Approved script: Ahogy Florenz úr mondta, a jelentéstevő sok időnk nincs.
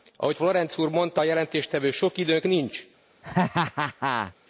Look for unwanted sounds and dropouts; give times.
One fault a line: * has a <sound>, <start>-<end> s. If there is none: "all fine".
* has a laugh, 3.2-4.3 s